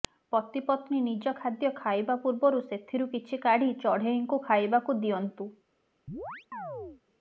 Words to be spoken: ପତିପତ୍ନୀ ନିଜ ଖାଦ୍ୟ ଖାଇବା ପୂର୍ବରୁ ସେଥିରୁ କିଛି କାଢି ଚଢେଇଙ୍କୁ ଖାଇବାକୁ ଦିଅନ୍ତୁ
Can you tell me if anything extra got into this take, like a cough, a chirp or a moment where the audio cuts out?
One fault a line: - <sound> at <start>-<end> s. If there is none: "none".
- chirp at 6.1-7.0 s